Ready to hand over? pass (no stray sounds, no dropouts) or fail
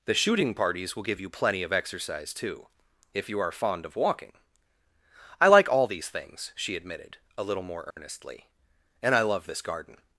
fail